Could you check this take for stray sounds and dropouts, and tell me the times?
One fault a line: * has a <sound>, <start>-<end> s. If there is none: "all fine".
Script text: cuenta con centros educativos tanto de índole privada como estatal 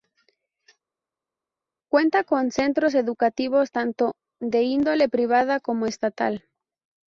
all fine